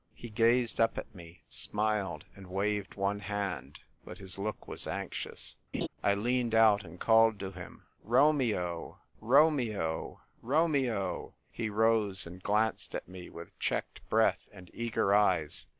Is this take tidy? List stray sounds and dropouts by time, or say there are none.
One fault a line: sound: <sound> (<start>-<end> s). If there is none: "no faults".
sound: laugh (5.7-5.9 s)